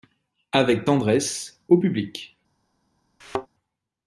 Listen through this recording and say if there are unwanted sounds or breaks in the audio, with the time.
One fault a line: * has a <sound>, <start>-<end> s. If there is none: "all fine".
* has a thud, 3.2-3.5 s